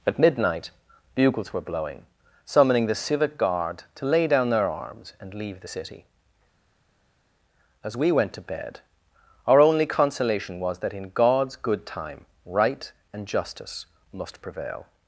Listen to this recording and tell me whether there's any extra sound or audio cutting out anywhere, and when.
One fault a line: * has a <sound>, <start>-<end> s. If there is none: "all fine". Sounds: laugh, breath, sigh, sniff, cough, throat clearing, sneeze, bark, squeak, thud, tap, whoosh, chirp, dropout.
all fine